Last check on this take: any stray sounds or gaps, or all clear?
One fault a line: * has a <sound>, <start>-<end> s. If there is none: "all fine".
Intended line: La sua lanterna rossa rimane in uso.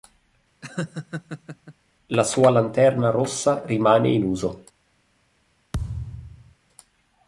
* has a laugh, 0.6-1.7 s
* has a thud, 5.7-6.6 s